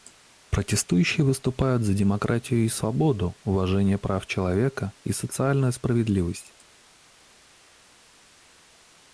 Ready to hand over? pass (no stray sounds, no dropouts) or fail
pass